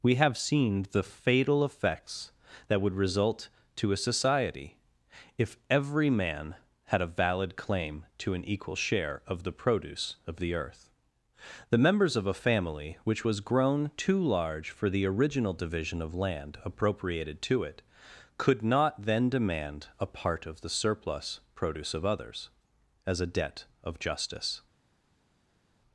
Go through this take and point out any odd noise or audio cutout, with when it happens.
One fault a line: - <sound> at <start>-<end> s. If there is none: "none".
none